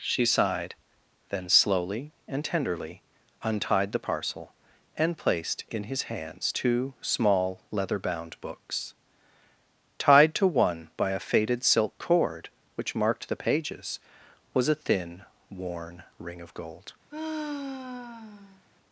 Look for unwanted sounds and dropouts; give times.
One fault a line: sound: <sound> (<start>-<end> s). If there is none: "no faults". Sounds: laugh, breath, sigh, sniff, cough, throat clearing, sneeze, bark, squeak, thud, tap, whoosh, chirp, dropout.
sound: sigh (17.1-18.7 s)